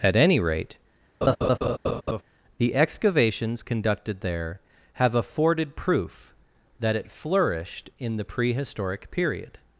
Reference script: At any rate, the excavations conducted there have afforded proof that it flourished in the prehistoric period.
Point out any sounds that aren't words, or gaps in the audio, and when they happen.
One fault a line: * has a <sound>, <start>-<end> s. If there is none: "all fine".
* has a laugh, 1.2-2.2 s